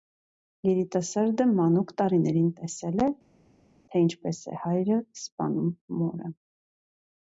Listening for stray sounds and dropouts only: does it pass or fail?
pass